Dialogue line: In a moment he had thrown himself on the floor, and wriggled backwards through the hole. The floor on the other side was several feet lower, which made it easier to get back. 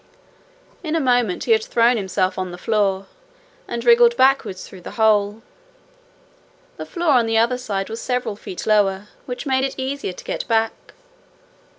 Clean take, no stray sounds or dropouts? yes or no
yes